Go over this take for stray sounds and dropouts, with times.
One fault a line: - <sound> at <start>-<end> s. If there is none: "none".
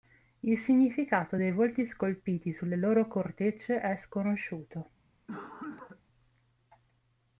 - cough at 5.3-6.0 s